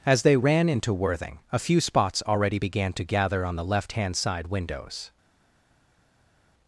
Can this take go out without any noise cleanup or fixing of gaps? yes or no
yes